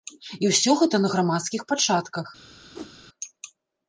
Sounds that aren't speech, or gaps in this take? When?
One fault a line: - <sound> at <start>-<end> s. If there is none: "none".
- whoosh at 2.7-3.0 s